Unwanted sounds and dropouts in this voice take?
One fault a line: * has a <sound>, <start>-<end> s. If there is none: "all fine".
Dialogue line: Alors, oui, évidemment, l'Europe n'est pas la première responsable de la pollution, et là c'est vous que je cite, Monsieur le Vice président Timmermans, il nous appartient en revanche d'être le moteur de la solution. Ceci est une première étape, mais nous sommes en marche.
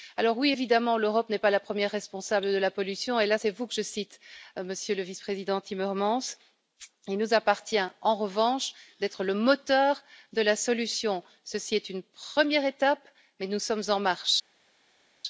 all fine